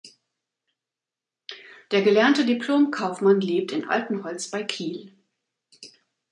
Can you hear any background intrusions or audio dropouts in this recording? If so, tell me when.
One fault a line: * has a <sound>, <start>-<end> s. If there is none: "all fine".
all fine